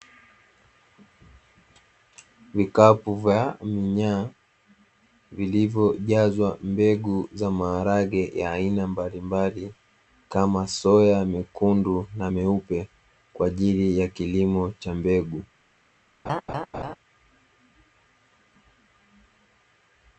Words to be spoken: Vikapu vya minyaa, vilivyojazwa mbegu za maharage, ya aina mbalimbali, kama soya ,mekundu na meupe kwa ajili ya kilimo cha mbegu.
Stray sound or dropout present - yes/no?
yes